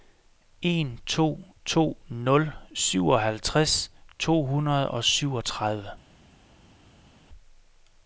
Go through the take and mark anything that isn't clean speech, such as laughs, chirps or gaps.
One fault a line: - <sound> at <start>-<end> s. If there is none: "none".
none